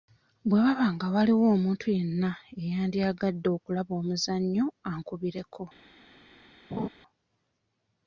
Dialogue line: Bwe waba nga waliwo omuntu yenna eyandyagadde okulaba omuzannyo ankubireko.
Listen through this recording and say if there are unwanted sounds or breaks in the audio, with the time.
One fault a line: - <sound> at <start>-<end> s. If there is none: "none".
- laugh at 6.7-6.9 s